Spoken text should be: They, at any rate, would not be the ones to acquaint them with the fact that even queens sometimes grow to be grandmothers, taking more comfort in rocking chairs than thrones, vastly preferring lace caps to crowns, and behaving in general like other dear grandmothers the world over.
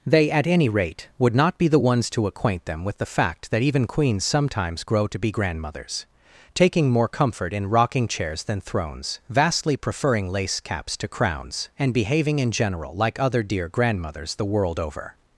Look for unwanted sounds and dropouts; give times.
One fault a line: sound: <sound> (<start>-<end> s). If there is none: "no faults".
no faults